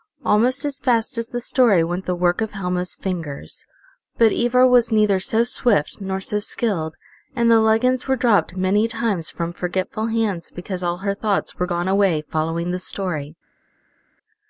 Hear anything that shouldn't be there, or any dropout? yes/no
no